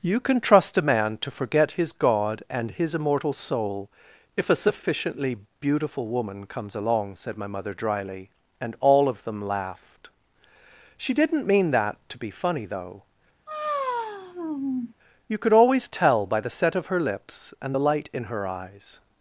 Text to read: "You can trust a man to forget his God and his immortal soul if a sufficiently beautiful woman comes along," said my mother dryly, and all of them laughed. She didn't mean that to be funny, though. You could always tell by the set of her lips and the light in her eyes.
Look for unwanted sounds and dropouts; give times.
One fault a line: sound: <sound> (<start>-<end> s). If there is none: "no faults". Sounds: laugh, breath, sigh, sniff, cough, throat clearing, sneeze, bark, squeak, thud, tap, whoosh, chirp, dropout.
sound: sigh (13.5-14.9 s)